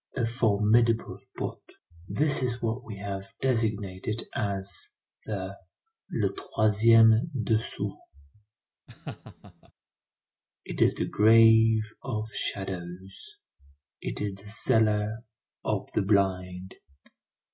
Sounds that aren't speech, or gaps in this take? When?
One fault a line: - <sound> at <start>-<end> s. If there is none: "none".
- laugh at 8.9-9.7 s